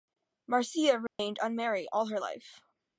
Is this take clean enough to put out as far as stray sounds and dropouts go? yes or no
no